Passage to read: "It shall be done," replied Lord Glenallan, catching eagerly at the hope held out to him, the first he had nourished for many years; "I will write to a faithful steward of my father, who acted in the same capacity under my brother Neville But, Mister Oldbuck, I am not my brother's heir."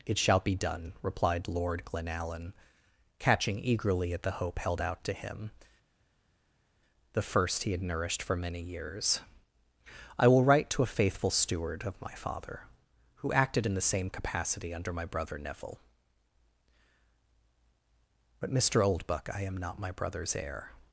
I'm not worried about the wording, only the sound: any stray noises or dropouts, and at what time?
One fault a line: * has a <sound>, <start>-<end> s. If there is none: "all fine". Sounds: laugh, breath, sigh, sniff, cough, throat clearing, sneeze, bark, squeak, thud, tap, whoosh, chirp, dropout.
all fine